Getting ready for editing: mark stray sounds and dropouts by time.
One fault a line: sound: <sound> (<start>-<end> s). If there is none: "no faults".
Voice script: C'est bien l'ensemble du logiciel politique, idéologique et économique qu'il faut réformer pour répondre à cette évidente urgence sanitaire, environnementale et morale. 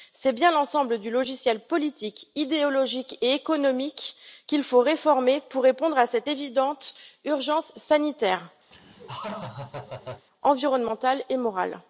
sound: laugh (8.7-10.3 s)